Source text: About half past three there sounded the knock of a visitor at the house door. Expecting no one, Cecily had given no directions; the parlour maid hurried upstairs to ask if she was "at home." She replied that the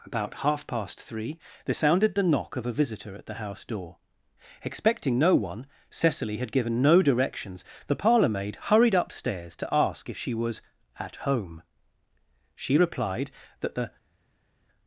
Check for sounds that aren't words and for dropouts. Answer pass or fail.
pass